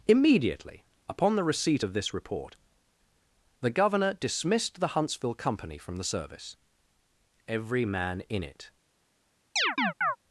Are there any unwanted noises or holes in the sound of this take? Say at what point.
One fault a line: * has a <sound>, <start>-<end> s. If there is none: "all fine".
* has a chirp, 9.6-10.2 s